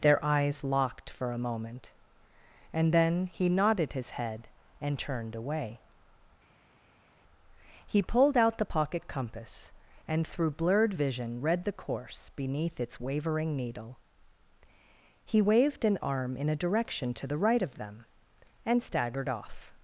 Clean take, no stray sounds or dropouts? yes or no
yes